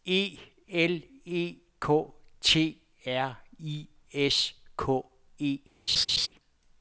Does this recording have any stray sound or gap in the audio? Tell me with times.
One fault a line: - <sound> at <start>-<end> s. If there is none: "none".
- laugh at 5.9-6.3 s